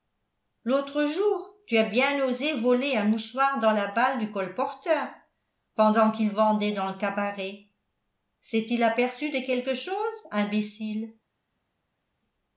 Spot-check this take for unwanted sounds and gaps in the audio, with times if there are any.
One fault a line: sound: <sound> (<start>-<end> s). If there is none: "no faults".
no faults